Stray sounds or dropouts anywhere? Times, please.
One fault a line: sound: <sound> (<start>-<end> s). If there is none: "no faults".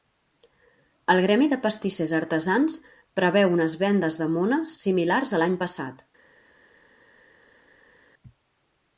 no faults